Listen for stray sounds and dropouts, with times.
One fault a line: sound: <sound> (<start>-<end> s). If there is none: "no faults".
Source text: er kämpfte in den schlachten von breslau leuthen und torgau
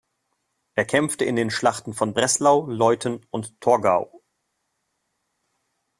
no faults